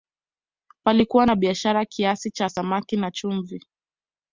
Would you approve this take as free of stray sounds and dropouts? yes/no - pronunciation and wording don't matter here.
yes